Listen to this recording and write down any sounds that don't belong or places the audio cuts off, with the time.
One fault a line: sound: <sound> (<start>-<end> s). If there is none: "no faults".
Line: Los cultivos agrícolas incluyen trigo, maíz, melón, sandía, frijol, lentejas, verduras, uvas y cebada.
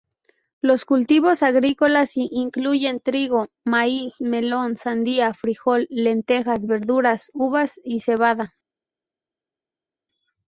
no faults